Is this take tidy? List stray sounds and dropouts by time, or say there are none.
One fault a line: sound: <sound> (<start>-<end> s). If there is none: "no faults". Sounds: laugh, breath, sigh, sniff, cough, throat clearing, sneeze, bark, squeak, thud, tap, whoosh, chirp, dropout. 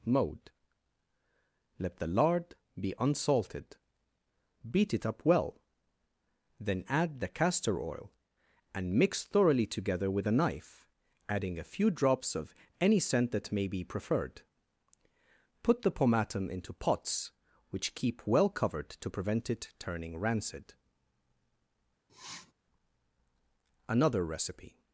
sound: sniff (22.1-22.5 s)